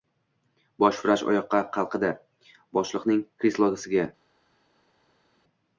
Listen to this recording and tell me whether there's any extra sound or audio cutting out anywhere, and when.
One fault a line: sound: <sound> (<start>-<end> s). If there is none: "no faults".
no faults